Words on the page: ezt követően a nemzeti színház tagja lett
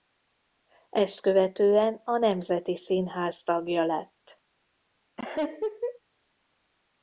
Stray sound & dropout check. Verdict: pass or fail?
fail